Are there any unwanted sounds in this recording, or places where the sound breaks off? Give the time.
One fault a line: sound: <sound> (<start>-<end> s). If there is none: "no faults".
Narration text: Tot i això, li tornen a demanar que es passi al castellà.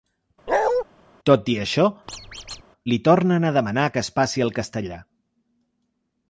sound: bark (0.5-0.8 s)
sound: squeak (2.1-2.6 s)